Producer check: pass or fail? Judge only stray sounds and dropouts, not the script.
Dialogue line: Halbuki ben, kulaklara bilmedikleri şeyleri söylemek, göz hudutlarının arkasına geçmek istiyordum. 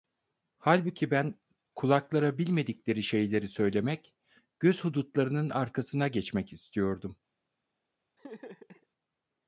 fail